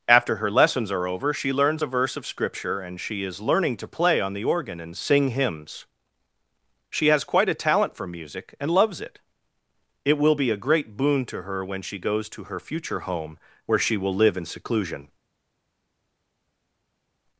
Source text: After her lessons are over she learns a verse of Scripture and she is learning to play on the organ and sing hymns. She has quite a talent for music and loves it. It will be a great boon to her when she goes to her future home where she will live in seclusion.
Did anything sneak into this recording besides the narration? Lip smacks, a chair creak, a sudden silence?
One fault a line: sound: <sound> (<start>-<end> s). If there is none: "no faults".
no faults